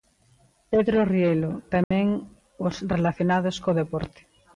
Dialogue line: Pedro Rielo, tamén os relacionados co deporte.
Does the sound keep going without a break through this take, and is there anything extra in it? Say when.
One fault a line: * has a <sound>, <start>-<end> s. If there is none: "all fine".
* has a dropout, 1.8-1.9 s